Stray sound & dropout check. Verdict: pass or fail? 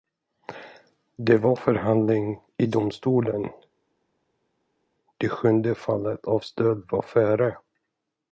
pass